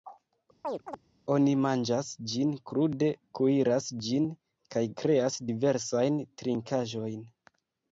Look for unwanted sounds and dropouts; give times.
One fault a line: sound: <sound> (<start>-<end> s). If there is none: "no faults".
sound: chirp (0.6-1.0 s)